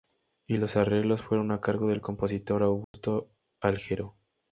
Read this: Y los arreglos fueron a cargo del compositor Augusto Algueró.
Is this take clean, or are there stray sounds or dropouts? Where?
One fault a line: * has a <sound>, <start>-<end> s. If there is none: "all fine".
* has a dropout, 2.8-2.9 s